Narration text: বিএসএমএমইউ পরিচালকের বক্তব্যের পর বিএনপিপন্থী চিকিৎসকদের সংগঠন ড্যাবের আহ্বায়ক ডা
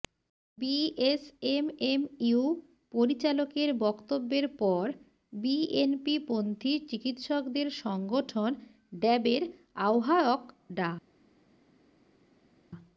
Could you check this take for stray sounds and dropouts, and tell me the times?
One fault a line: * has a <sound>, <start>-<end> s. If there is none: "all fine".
all fine